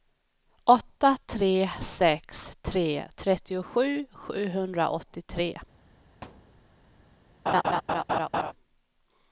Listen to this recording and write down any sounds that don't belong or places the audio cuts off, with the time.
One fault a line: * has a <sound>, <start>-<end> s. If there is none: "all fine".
* has a thud, 6.2-6.6 s
* has a laugh, 7.5-8.5 s